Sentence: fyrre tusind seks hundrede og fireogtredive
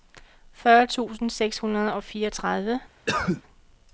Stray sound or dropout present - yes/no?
yes